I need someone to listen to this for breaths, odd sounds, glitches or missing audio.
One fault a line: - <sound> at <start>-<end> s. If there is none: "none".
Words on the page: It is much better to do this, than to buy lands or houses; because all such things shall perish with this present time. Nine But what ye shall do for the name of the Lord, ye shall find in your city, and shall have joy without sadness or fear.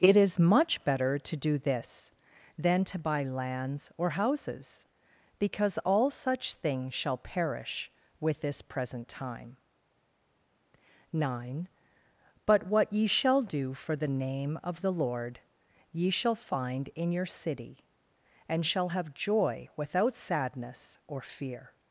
none